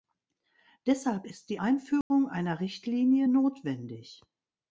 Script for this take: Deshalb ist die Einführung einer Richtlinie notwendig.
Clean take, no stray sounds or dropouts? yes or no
no